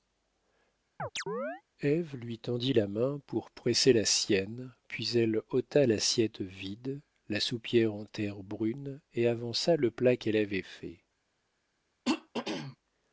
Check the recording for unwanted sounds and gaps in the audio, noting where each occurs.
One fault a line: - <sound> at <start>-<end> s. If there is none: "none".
- chirp at 1.0-1.6 s
- throat clearing at 12.1-12.8 s